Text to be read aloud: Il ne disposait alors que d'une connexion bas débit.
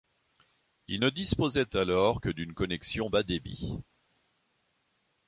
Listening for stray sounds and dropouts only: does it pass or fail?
pass